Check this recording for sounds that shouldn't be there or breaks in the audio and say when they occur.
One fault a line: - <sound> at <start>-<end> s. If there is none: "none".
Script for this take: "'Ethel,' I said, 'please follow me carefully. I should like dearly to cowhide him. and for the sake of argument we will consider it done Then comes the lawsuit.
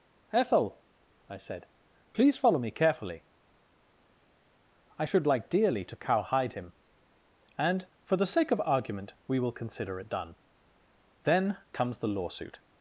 none